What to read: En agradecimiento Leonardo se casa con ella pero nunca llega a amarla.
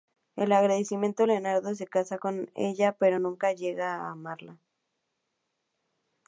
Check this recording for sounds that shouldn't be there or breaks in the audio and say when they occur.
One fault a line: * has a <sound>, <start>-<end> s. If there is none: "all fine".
all fine